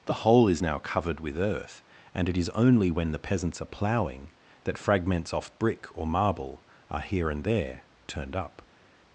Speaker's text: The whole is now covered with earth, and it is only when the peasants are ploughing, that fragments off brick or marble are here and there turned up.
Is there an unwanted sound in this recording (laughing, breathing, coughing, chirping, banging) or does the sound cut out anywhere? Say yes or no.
no